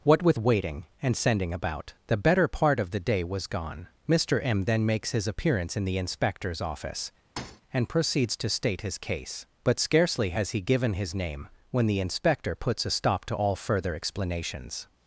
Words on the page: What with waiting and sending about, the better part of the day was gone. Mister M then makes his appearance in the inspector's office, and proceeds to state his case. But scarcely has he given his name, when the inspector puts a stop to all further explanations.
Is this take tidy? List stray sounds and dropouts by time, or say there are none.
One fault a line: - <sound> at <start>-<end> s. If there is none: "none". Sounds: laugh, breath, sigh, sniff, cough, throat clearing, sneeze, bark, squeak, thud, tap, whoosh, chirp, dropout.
- thud at 7.4-7.6 s